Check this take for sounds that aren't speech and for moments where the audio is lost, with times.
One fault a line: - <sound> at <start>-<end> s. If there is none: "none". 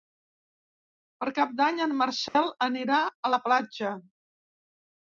- dropout at 2.3-2.4 s